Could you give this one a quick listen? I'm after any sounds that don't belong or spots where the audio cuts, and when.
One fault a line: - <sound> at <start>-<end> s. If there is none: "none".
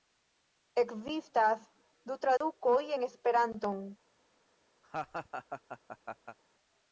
- dropout at 2.4-2.4 s
- laugh at 4.8-6.4 s